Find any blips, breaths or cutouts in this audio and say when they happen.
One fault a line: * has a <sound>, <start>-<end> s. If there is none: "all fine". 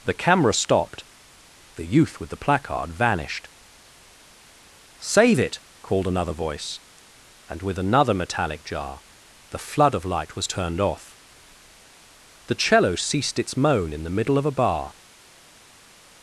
all fine